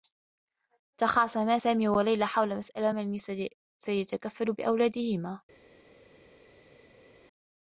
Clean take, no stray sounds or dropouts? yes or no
yes